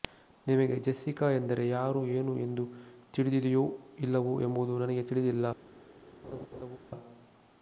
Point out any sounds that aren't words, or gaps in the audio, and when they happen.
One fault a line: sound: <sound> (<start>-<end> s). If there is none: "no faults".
sound: laugh (6.2-6.8 s)